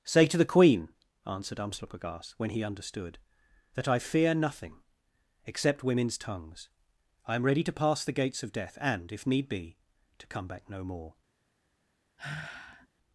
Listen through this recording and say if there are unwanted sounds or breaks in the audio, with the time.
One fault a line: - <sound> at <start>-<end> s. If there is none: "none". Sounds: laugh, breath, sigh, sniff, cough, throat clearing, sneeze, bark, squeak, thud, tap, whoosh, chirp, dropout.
- sigh at 12.2-12.9 s